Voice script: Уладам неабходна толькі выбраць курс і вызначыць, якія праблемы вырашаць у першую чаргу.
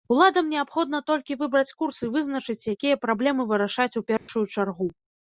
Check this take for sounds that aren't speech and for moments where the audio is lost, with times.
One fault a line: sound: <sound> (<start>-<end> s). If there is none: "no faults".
sound: dropout (4.2-4.3 s)